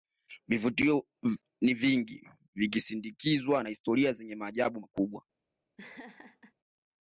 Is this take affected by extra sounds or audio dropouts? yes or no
yes